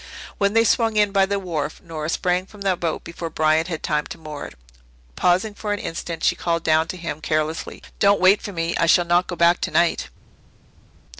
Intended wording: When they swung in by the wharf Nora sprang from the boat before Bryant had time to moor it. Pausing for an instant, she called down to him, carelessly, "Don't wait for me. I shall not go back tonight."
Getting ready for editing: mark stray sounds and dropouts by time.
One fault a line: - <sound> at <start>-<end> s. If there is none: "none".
none